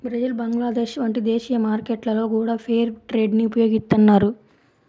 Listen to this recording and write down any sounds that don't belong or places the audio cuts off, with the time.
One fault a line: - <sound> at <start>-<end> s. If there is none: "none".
none